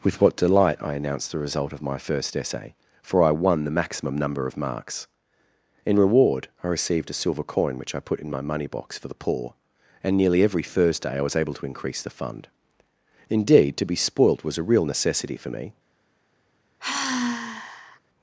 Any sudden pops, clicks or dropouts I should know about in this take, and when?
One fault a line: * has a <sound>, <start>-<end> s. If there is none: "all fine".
* has a sigh, 16.8-18.0 s